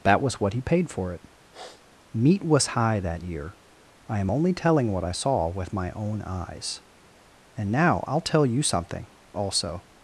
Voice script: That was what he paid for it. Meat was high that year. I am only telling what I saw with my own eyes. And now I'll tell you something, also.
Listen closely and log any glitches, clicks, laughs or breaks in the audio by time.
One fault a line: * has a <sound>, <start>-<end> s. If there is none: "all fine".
* has a sniff, 1.5-1.8 s